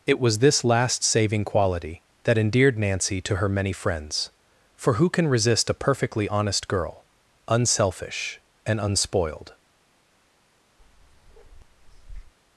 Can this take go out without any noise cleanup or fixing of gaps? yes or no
no